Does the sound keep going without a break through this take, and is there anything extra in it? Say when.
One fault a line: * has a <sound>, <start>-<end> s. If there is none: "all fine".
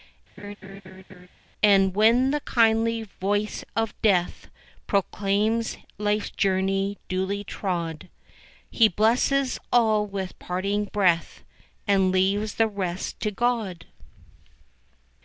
* has a laugh, 0.4-1.3 s